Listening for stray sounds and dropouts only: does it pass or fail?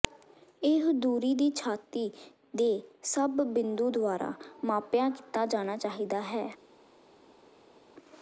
pass